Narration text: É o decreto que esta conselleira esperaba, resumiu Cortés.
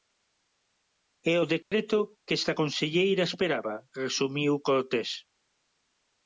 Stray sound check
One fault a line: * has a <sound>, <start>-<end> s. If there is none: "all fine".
* has a dropout, 1.6-1.7 s